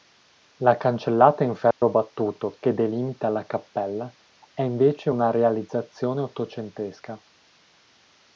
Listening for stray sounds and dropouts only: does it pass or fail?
fail